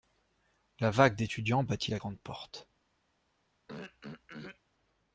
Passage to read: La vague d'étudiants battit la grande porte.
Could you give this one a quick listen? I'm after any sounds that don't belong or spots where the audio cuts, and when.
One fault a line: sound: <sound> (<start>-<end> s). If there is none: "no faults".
sound: throat clearing (3.7-4.6 s)